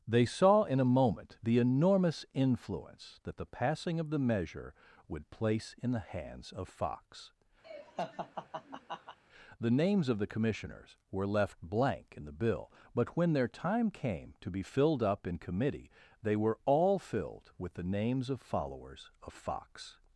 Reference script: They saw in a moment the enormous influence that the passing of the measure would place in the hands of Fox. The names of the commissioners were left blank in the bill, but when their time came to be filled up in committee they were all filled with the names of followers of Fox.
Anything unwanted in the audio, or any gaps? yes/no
yes